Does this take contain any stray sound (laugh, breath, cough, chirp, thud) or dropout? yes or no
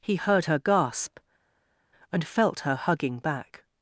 no